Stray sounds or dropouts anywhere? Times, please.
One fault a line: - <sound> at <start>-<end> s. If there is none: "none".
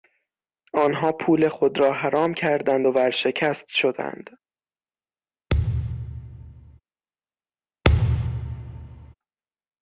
- thud at 5.5-6.8 s
- thud at 7.8-9.1 s